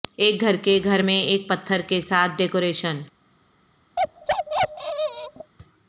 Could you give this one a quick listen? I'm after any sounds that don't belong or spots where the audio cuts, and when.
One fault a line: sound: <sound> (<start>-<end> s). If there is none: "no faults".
sound: bark (4.0-5.5 s)